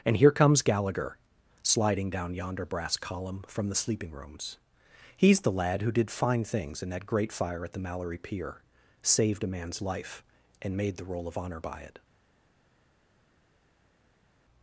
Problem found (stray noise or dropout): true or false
false